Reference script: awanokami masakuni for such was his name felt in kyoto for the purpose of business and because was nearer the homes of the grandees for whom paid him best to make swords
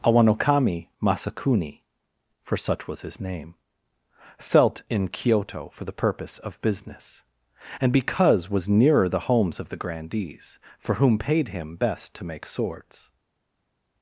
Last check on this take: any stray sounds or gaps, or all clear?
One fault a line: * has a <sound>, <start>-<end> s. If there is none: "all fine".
all fine